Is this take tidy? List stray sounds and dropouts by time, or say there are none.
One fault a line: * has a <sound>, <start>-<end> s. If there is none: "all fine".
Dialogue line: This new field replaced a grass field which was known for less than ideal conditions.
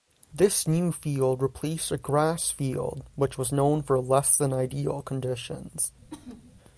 * has a sneeze, 6.0-6.6 s